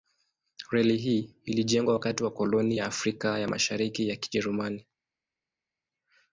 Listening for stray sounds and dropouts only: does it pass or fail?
pass